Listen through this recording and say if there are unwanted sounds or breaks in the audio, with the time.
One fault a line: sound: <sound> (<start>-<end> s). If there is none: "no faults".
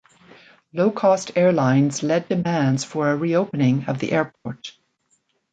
sound: dropout (4.4-4.5 s)